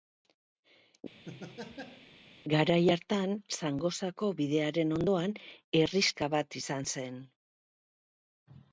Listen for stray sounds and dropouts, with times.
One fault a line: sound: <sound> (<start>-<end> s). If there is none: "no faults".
sound: laugh (1.3-2.1 s)